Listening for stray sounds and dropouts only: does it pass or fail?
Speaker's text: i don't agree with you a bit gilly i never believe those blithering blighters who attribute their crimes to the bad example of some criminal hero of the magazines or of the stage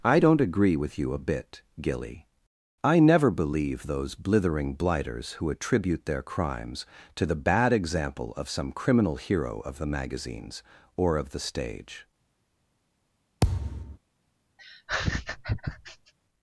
fail